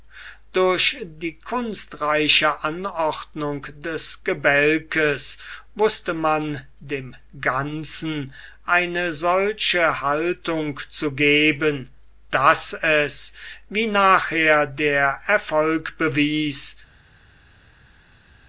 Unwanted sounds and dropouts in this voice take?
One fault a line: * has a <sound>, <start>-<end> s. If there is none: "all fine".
all fine